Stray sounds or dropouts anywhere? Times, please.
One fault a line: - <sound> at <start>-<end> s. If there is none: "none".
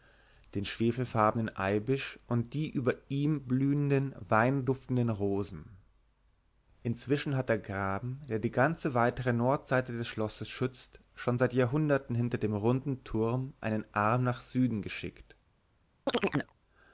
- chirp at 16.1-16.5 s